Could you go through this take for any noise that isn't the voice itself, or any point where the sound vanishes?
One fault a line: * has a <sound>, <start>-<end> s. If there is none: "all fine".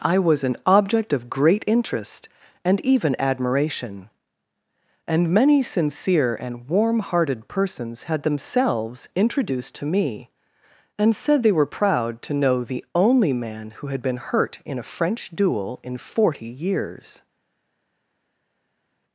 all fine